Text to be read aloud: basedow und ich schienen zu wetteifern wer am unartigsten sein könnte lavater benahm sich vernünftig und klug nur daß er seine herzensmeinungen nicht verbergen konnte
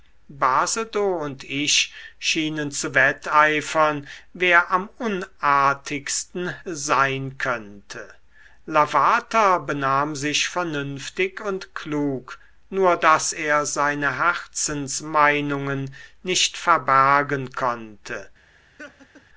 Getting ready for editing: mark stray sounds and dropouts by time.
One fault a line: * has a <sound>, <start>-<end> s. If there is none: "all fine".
* has a laugh, 18.8-19.2 s